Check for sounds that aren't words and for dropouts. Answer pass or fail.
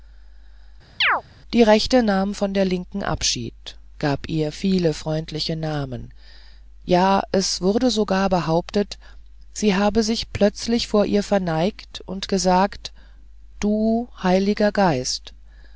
fail